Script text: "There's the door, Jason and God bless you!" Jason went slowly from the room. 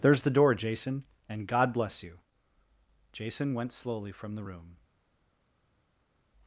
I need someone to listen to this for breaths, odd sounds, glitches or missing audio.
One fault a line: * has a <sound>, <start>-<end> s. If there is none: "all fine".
all fine